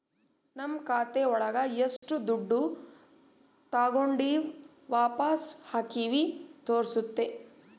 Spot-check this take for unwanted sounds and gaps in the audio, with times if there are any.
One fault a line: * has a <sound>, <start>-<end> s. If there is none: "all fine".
* has a dropout, 2.0-2.0 s